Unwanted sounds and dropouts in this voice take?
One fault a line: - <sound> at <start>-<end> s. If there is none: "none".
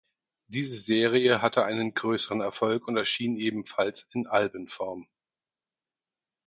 none